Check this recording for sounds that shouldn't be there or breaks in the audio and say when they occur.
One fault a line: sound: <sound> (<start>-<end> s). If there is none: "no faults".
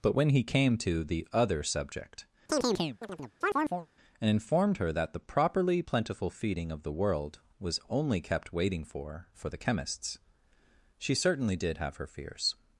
sound: chirp (2.5-3.9 s)